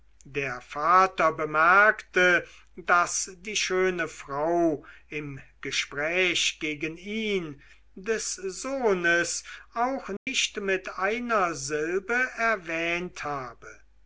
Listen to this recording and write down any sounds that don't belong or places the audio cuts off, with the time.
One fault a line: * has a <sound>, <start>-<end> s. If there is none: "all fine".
* has a dropout, 10.2-10.3 s